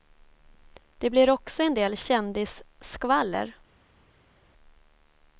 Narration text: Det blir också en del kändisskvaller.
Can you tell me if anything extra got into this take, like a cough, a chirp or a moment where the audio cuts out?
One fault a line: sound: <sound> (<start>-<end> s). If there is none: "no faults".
no faults